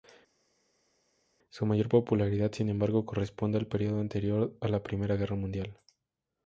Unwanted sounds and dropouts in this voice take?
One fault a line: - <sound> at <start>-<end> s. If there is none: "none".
none